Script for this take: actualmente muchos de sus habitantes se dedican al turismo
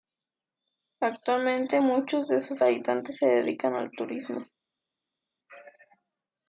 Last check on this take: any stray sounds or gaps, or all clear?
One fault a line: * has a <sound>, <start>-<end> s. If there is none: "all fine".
all fine